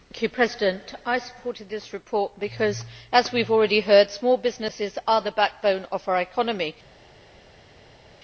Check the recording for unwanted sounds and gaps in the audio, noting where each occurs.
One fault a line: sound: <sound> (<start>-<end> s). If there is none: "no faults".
no faults